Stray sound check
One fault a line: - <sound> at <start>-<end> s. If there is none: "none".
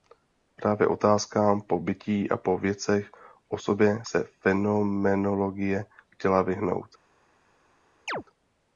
- chirp at 8.1-8.2 s